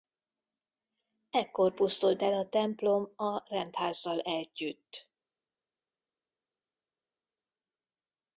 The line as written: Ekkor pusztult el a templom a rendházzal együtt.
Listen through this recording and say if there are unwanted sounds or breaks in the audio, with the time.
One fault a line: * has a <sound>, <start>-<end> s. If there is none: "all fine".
all fine